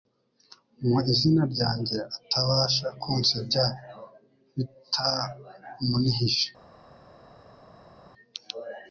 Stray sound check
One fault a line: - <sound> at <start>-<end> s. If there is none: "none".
none